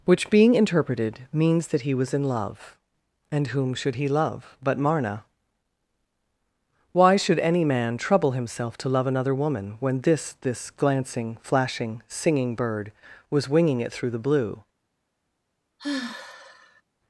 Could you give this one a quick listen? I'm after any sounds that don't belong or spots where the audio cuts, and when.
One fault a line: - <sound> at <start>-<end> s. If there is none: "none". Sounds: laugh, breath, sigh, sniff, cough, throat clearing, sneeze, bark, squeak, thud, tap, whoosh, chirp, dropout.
- sigh at 15.8-16.8 s